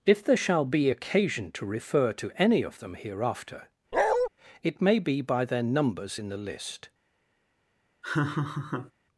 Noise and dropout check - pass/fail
fail